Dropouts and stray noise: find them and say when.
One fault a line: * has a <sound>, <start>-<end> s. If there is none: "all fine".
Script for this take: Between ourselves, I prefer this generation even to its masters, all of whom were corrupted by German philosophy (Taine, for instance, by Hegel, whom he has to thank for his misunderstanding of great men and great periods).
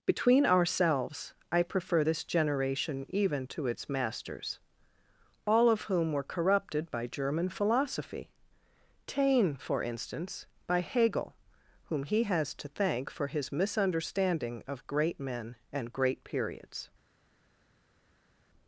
all fine